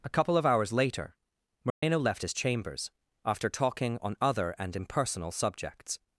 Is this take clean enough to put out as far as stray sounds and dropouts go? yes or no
no